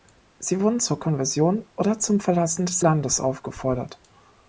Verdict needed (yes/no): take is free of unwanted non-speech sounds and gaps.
yes